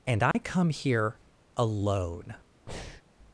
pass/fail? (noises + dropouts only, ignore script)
fail